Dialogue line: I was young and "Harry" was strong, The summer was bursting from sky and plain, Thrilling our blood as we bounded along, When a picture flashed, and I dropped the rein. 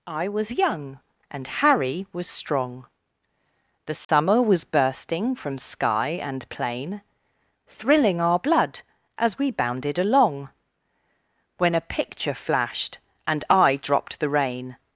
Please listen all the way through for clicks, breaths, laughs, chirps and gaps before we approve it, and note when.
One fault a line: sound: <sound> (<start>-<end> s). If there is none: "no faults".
sound: dropout (4.0-4.1 s)